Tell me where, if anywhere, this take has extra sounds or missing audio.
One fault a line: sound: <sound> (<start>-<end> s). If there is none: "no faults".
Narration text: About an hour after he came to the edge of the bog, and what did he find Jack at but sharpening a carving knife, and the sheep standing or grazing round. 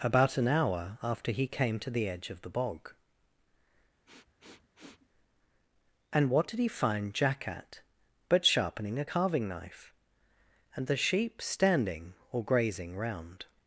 sound: sniff (4.1-5.1 s)